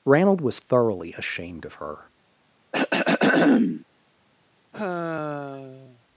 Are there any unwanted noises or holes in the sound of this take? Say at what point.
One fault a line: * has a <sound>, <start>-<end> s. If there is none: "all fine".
* has a throat clearing, 2.7-3.8 s
* has a sigh, 4.7-6.0 s